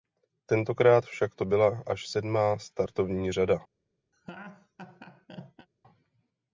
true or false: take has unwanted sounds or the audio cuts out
true